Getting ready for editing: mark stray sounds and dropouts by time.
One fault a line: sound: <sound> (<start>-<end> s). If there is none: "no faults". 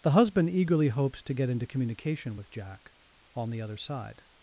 no faults